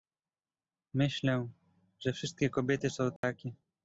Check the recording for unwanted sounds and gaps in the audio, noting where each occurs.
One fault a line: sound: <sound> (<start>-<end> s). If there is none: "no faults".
sound: dropout (3.2-3.2 s)